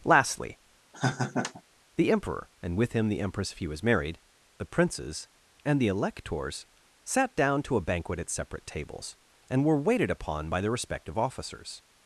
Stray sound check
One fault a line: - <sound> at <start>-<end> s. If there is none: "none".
- laugh at 0.9-1.6 s